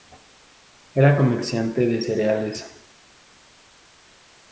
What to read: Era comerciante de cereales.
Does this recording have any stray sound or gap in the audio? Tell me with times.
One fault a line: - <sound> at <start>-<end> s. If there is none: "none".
none